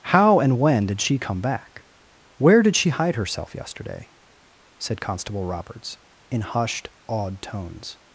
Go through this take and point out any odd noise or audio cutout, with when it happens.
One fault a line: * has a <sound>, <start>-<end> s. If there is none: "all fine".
all fine